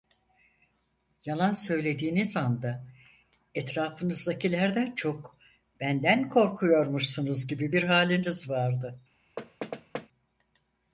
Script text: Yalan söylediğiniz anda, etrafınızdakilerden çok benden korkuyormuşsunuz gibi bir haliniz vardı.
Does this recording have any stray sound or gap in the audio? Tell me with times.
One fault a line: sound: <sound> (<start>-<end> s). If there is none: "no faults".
sound: thud (9.4-10.1 s)